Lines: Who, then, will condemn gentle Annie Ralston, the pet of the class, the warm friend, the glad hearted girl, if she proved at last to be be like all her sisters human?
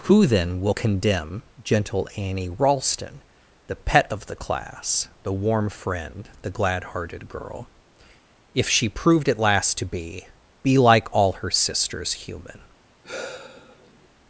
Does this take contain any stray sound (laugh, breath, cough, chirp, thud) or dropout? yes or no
yes